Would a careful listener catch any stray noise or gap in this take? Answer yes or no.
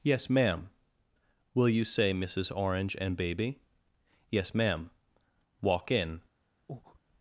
yes